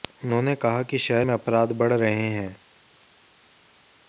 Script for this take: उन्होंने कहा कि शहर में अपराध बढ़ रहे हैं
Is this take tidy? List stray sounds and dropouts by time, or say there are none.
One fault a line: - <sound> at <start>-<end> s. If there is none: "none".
none